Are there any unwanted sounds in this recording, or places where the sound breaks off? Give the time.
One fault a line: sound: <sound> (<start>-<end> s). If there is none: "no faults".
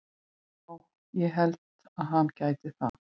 sound: dropout (2.9-2.9 s)